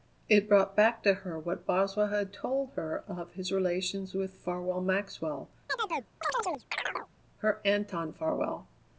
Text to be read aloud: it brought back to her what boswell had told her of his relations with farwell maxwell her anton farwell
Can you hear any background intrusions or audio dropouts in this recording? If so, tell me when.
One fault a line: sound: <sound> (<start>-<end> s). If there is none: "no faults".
sound: chirp (5.7-7.1 s)